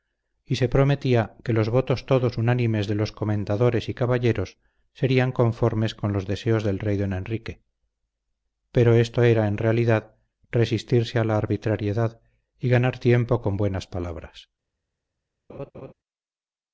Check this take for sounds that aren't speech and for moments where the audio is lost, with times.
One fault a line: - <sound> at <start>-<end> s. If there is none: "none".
- laugh at 15.5-15.9 s